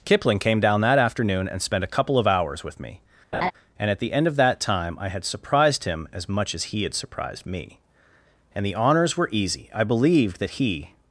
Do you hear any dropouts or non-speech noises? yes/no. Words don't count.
yes